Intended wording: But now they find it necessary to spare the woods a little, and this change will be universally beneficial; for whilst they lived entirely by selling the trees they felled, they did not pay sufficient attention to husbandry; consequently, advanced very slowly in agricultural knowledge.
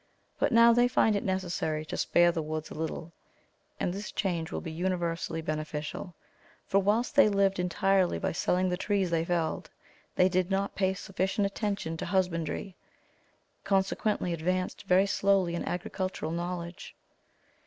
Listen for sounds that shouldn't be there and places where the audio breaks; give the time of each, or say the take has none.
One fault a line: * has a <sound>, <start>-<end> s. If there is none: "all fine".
all fine